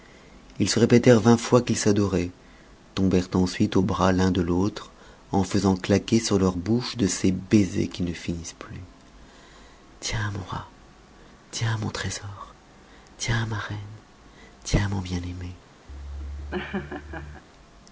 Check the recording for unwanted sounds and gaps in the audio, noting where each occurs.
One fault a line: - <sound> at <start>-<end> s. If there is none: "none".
- laugh at 15.9-17.4 s